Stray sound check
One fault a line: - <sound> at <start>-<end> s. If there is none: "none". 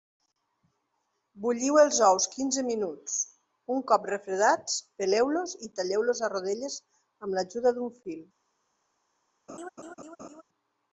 - laugh at 9.5-10.4 s